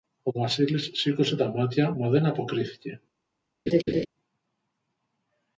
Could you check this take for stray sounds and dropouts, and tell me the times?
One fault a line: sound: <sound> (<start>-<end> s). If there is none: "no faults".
sound: laugh (3.7-4.1 s)